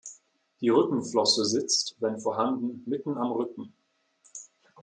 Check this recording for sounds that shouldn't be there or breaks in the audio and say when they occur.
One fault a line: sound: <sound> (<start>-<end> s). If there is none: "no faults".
no faults